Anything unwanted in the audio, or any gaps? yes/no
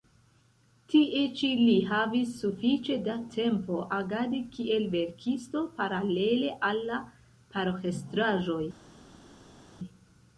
no